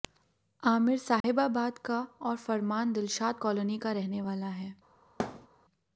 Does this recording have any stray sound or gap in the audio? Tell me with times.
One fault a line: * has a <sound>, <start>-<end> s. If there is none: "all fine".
* has a dropout, 1.2-1.2 s
* has a thud, 5.2-5.5 s